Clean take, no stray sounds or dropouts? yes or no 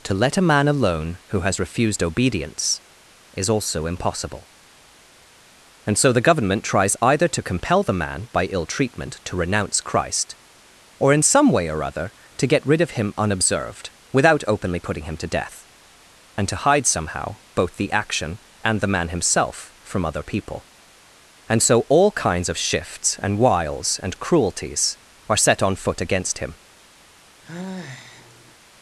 no